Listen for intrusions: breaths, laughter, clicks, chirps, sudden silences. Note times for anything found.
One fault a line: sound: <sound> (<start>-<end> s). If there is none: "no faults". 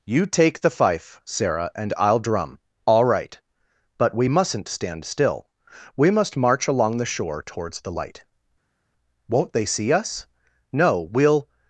no faults